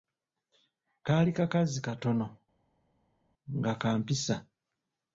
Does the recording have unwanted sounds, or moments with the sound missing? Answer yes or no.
no